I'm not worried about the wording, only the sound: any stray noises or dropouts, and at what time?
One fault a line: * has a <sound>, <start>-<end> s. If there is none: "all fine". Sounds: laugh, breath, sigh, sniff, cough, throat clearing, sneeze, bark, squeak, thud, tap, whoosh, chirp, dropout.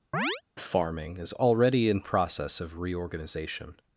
* has a chirp, 0.1-0.4 s